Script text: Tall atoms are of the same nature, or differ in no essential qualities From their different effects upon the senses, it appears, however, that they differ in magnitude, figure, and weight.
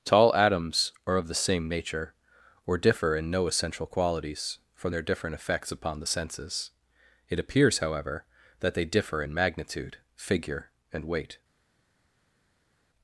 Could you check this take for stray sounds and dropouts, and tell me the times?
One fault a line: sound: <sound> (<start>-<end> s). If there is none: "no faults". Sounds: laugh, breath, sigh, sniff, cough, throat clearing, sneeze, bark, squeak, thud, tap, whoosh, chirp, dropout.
no faults